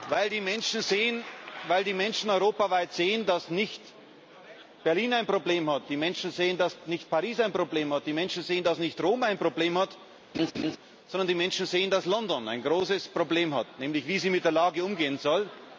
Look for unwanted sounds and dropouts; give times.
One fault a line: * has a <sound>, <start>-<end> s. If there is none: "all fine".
* has a laugh, 10.3-10.8 s